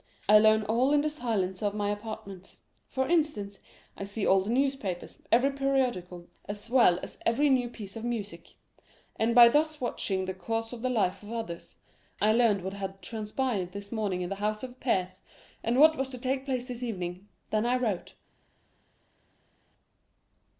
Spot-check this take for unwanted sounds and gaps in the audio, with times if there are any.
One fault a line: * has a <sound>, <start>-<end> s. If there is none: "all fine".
all fine